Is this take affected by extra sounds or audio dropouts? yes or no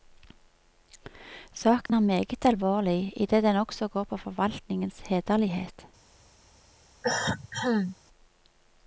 yes